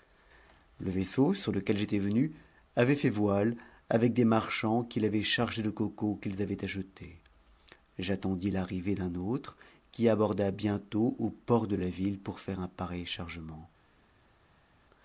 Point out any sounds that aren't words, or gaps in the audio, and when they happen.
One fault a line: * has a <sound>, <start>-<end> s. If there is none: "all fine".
all fine